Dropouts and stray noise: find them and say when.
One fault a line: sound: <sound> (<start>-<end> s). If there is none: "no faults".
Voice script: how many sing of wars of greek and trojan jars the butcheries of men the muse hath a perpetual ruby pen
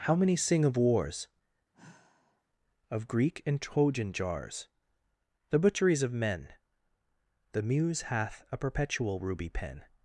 sound: sigh (1.7-2.4 s)